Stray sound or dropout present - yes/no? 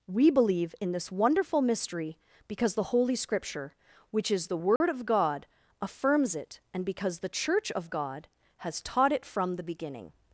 yes